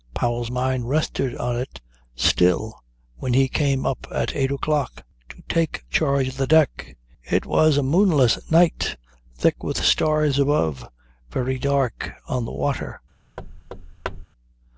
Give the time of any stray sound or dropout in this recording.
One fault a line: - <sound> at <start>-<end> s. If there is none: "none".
- thud at 13.4-14.3 s